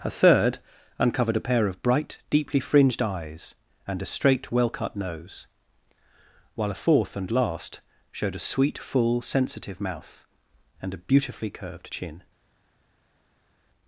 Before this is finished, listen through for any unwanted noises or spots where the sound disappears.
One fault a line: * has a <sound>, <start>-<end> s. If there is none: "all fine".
all fine